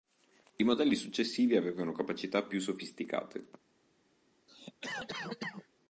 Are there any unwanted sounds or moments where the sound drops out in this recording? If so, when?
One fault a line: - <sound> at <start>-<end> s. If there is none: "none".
- cough at 4.5-5.7 s